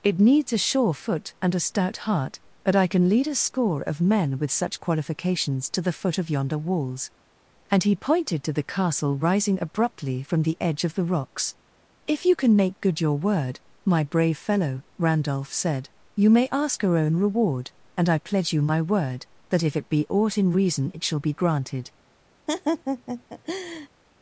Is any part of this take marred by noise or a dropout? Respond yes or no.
yes